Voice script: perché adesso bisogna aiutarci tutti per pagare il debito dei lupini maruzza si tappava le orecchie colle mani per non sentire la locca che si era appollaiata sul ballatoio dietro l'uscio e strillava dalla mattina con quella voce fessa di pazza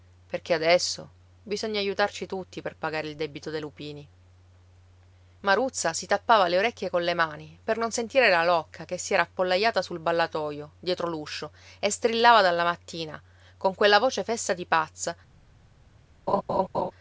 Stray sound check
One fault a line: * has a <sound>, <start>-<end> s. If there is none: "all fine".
* has a laugh, 16.3-16.9 s